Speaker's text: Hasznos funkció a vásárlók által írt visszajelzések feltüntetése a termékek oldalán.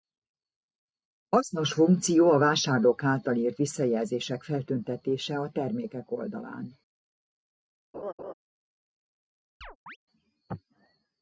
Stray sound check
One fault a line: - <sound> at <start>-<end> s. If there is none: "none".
- laugh at 7.9-8.3 s
- chirp at 9.6-10.0 s